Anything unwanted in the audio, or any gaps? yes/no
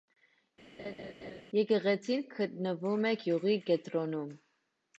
yes